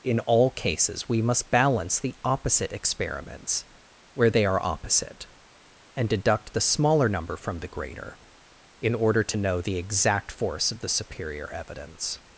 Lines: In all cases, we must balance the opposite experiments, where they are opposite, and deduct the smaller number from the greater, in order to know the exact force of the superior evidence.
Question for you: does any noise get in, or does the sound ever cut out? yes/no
no